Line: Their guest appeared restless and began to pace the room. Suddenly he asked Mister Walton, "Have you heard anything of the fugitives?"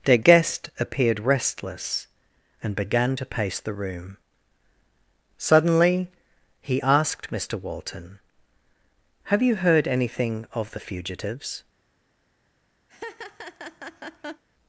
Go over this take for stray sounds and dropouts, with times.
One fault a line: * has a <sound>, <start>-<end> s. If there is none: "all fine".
* has a laugh, 12.9-14.4 s